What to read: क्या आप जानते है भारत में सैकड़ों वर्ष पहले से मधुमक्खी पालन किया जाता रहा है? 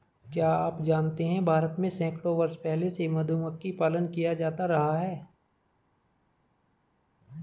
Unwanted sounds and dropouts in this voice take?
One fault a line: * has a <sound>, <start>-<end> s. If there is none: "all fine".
all fine